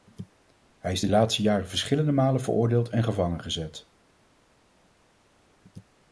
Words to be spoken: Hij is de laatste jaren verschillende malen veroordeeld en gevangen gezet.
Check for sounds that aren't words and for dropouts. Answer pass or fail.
pass